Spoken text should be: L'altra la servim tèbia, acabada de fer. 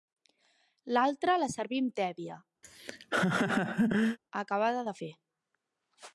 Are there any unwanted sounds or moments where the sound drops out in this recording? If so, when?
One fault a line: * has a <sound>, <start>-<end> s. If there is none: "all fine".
* has a laugh, 2.6-4.2 s